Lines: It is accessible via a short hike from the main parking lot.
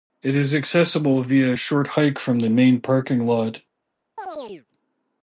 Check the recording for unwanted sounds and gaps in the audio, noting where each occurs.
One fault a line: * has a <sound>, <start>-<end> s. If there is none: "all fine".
* has a chirp, 4.2-4.7 s